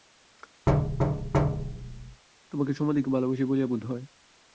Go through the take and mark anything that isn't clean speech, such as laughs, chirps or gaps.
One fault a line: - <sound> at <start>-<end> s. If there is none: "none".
- thud at 0.7-2.2 s